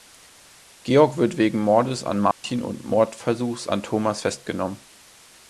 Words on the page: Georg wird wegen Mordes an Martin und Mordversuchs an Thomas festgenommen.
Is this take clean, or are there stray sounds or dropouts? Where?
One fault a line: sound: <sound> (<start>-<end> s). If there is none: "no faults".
sound: dropout (2.3-2.4 s)